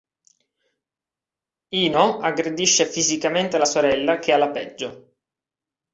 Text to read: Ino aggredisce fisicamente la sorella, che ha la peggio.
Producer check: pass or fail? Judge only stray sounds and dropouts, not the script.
pass